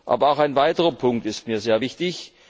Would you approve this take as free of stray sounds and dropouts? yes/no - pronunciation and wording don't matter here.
yes